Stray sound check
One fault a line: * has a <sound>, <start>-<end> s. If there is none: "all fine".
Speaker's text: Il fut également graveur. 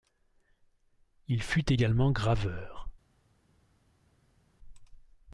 all fine